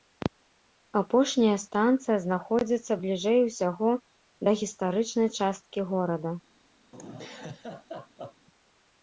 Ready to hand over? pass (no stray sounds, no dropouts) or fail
fail